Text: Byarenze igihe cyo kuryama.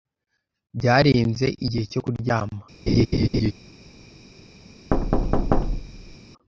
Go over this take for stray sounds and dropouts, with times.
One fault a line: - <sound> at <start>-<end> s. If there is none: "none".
- laugh at 2.9-3.5 s
- thud at 4.9-6.2 s